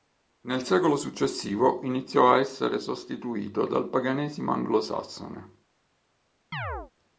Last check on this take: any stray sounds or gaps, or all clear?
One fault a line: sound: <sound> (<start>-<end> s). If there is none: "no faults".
sound: chirp (6.5-6.9 s)